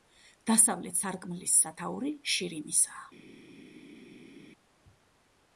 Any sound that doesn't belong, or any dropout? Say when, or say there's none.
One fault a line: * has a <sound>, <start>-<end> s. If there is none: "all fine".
all fine